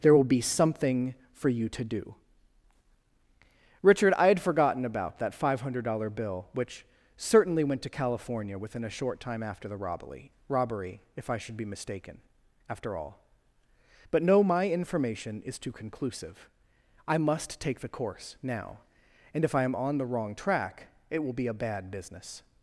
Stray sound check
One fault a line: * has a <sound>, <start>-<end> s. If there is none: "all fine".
all fine